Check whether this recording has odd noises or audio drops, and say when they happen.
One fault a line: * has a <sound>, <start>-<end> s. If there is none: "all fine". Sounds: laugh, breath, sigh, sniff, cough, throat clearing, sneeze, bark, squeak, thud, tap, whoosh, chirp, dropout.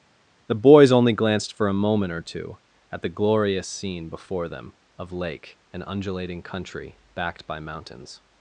all fine